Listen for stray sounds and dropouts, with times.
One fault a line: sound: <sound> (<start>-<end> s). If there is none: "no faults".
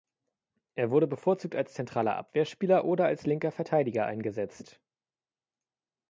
no faults